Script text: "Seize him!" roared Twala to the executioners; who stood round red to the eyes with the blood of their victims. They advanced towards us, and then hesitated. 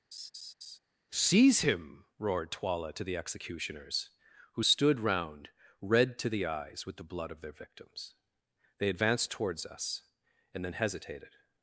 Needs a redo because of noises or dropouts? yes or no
yes